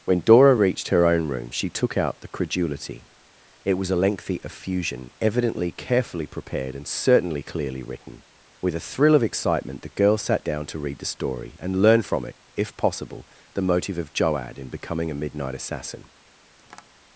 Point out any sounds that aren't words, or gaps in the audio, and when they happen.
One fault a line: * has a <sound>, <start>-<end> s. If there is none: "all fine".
* has a tap, 16.6-16.9 s